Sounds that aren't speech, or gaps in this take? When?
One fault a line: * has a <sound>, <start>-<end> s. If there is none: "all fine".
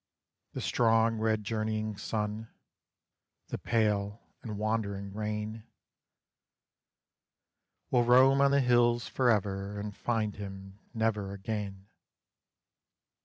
all fine